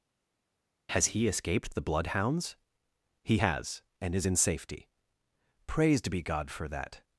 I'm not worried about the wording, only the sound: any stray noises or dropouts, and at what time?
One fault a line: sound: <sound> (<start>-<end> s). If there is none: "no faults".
no faults